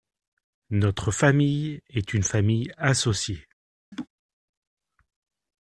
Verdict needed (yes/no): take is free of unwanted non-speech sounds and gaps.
no